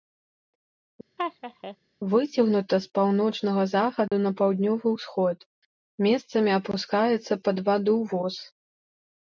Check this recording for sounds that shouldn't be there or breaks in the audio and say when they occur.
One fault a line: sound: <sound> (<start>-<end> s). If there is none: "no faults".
sound: laugh (1.2-1.8 s)
sound: dropout (4.1-4.1 s)